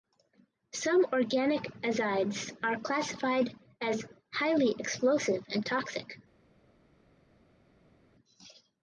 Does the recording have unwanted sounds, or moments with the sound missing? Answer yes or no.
no